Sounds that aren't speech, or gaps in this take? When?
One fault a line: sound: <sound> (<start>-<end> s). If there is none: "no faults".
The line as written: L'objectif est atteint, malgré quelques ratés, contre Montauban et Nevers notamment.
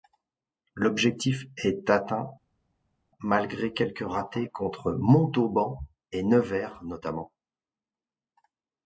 no faults